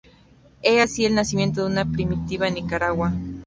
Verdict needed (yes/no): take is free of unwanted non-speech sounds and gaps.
yes